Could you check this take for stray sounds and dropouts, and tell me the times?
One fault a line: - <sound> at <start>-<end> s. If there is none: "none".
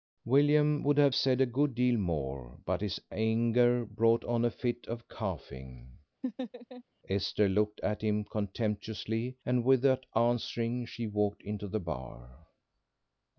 - laugh at 6.2-6.8 s